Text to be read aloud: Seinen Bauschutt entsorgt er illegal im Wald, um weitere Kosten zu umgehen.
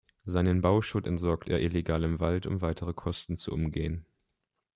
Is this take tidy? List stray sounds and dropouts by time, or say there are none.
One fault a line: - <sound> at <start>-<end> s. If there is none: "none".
none